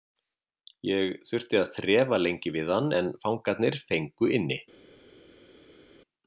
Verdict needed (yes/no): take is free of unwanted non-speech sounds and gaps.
yes